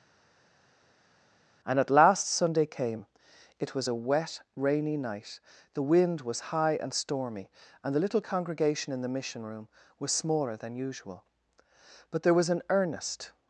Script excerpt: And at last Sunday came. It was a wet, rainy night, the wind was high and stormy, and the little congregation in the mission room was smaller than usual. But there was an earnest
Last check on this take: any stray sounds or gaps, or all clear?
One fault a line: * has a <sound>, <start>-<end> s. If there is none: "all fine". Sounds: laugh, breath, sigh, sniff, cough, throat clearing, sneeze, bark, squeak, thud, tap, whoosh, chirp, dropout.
all fine